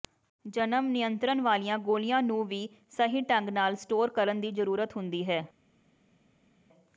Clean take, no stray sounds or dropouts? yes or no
yes